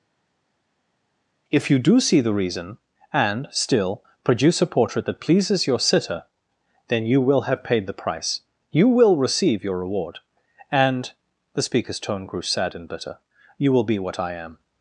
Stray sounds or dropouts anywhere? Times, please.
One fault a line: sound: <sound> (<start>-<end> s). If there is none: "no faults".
no faults